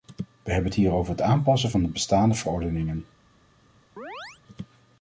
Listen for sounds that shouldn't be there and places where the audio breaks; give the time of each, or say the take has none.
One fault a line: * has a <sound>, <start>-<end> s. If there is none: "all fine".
* has a chirp, 4.0-4.4 s